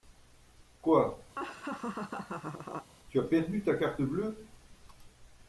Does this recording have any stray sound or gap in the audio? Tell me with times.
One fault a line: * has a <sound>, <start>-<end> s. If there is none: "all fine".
* has a laugh, 1.4-2.9 s